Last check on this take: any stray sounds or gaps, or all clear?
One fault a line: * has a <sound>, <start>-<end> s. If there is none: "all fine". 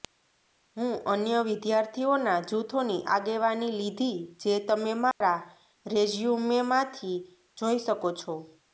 * has a dropout, 5.1-5.2 s